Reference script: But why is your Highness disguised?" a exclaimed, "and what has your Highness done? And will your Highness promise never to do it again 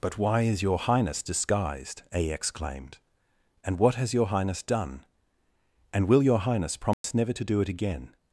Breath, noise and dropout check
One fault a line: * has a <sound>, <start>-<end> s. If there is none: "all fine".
* has a dropout, 6.9-7.0 s